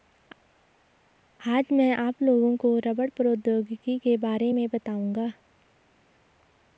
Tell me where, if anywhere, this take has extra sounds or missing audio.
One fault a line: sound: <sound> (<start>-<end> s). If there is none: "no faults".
no faults